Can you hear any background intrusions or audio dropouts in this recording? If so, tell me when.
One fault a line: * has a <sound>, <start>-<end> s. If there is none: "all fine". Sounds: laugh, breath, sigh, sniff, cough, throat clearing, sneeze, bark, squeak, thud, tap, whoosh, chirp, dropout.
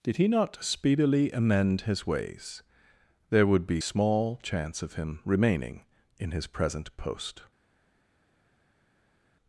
all fine